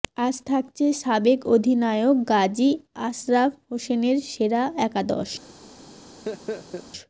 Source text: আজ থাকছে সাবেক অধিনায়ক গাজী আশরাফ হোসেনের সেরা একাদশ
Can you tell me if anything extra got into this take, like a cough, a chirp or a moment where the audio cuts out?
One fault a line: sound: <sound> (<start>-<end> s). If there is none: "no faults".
sound: laugh (6.3-6.9 s)